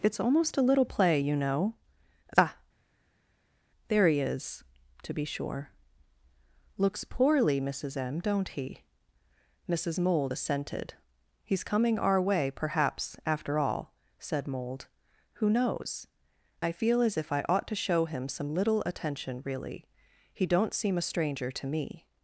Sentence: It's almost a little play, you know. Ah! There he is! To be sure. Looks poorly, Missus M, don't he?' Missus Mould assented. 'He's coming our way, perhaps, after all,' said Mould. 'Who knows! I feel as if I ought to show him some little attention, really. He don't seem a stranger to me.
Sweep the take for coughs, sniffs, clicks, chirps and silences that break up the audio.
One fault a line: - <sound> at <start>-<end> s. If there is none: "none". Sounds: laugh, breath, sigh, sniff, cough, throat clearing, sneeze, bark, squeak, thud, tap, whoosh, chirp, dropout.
none